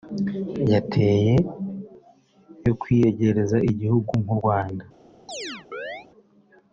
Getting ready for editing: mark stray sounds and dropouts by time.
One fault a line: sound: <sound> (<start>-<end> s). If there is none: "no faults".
sound: chirp (5.3-6.1 s)